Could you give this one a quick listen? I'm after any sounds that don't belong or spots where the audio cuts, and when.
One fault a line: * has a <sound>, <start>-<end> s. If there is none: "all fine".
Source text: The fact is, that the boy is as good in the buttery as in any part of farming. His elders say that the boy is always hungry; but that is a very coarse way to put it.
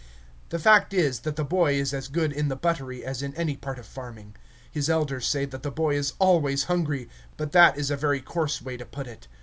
all fine